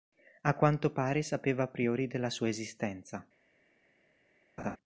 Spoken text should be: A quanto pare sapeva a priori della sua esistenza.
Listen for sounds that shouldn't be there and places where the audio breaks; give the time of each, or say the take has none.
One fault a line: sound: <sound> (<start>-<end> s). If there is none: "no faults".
sound: laugh (4.6-4.8 s)